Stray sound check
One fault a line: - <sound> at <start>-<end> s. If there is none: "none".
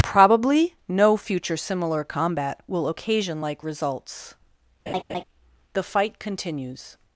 - laugh at 4.9-5.2 s